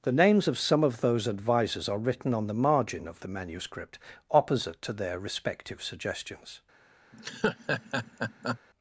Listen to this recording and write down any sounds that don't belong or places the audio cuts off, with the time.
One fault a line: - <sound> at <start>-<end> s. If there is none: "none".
- laugh at 7.1-8.6 s